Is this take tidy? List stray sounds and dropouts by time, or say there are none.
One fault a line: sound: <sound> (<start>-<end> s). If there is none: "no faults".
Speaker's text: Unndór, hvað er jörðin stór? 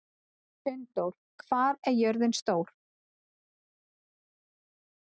no faults